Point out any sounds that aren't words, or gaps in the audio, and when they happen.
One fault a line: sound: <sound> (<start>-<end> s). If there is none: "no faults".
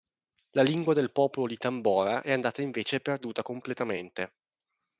no faults